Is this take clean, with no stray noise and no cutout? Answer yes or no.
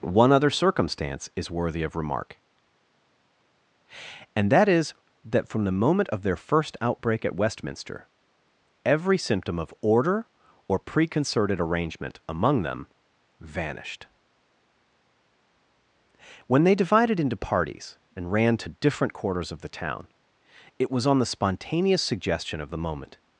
yes